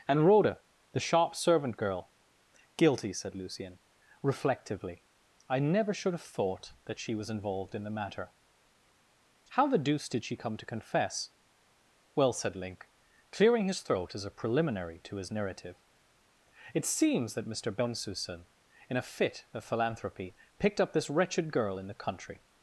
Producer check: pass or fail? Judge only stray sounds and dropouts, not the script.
pass